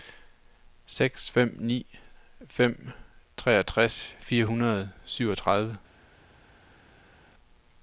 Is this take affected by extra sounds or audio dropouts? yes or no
no